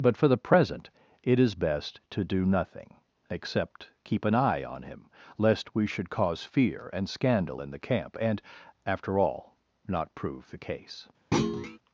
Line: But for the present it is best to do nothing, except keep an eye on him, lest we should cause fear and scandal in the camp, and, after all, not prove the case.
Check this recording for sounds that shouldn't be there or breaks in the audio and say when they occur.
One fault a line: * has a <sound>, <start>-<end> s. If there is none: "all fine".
* has a thud, 11.3-11.8 s